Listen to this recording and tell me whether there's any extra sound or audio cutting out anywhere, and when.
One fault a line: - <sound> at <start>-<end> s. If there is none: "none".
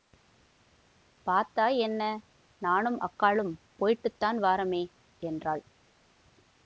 none